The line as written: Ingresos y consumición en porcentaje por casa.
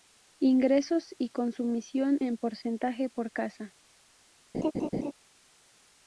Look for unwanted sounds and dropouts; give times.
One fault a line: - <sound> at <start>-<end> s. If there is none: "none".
- laugh at 4.5-5.1 s